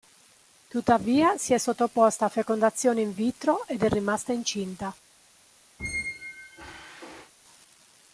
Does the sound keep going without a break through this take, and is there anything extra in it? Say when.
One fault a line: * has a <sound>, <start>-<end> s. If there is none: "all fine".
* has a squeak, 5.8-7.3 s